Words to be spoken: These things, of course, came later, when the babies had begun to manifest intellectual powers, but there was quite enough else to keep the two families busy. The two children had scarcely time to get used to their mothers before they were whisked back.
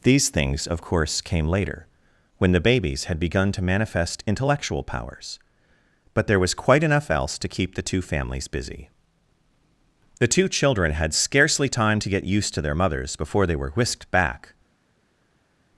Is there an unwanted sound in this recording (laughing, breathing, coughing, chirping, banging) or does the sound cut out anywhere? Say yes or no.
no